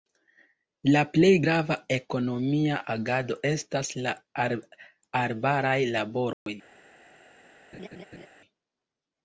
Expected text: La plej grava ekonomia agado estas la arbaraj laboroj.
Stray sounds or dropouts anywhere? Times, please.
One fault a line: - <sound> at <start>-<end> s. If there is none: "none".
- dropout at 6.3-6.5 s
- laugh at 7.7-8.3 s